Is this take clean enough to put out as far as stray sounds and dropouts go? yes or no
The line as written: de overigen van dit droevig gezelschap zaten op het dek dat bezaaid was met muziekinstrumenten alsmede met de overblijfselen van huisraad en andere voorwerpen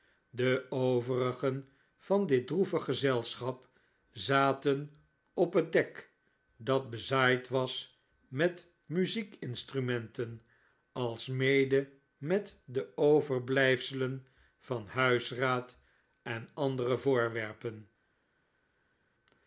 yes